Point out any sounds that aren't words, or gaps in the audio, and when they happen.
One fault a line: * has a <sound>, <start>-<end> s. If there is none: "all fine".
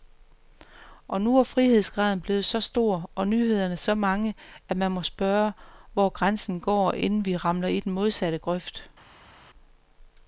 all fine